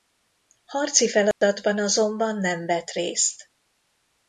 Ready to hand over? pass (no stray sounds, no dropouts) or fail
fail